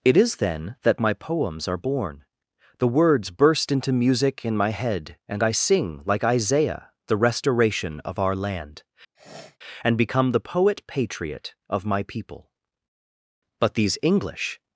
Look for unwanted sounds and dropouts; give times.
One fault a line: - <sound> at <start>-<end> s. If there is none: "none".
- sniff at 9.1-9.6 s